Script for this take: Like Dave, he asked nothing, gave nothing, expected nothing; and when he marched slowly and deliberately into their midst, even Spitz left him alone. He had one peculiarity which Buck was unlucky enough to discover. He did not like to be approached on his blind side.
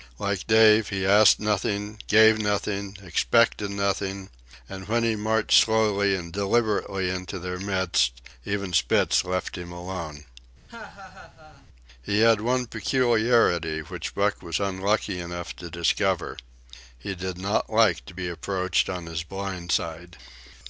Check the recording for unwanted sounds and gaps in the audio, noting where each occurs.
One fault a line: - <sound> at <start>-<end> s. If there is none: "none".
- laugh at 10.7-11.7 s